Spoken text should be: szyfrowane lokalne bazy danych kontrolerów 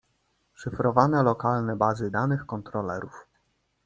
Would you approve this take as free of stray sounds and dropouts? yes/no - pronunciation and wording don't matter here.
yes